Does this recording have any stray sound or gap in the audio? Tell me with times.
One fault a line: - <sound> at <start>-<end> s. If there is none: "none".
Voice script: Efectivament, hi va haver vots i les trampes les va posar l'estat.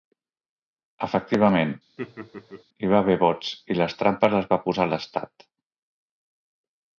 - laugh at 2.0-2.6 s